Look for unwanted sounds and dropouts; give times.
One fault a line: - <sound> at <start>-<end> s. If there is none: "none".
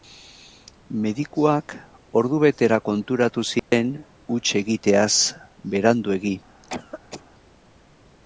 - dropout at 3.6-3.7 s
- cough at 6.6-7.2 s